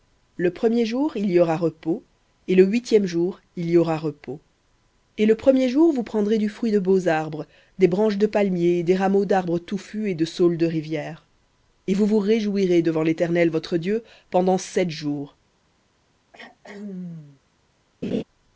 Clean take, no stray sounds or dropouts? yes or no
no